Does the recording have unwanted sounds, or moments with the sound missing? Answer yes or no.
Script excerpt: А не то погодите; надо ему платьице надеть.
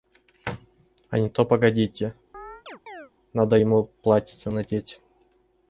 yes